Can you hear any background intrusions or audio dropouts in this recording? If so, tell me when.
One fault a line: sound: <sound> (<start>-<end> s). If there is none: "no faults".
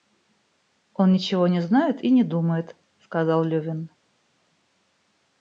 no faults